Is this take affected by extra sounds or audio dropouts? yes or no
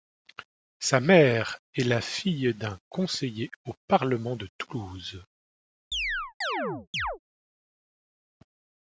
yes